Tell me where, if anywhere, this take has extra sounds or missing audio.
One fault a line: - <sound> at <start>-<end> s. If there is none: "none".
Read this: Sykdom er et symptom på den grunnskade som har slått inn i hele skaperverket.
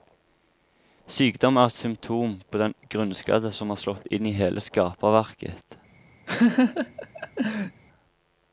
- laugh at 6.3-7.8 s